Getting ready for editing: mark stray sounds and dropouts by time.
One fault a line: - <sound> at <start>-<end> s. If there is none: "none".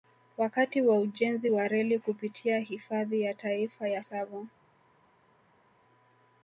none